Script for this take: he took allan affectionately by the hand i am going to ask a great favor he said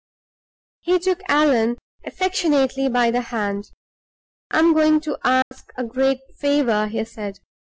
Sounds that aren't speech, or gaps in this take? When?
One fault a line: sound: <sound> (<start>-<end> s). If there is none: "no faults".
sound: dropout (5.4-5.5 s)